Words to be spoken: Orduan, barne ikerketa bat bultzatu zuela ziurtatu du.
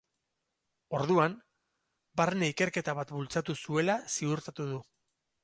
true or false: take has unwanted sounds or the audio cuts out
false